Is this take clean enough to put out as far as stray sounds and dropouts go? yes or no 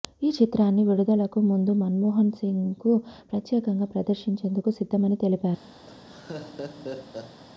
no